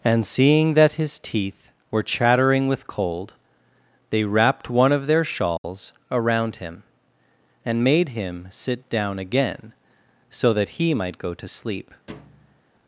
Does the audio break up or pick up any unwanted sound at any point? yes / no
yes